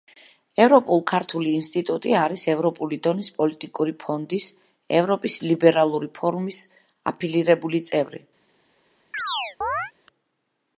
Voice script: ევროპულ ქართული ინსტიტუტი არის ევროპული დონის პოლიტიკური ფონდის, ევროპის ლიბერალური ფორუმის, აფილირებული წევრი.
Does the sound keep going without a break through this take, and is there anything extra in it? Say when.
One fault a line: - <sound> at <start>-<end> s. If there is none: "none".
- chirp at 9.1-9.9 s